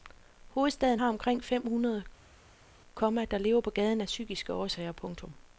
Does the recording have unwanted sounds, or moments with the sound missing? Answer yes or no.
no